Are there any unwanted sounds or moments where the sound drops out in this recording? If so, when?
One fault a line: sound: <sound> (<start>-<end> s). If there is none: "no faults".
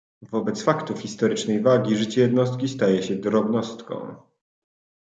no faults